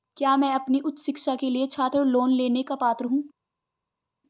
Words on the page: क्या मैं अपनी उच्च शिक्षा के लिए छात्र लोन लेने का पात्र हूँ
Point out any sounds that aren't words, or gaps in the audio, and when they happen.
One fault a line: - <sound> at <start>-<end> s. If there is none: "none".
none